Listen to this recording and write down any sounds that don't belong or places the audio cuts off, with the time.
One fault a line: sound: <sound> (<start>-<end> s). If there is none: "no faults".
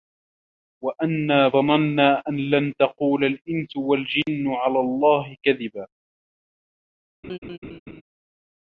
sound: laugh (7.2-8.0 s)